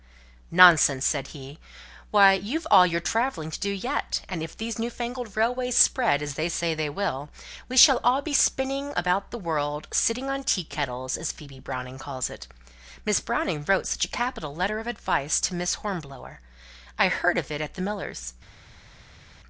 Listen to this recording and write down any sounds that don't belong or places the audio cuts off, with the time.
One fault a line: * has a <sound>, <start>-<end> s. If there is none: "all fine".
all fine